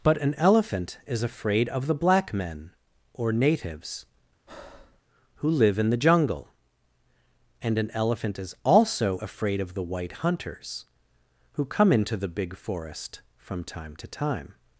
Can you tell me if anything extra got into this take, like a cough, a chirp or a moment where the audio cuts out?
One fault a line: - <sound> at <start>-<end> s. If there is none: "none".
- breath at 4.5-5.0 s